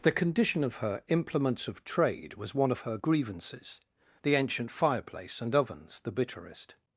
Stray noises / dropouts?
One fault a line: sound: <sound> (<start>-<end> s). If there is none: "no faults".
no faults